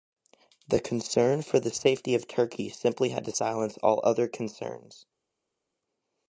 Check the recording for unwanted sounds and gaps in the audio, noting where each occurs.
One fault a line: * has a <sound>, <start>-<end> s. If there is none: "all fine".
all fine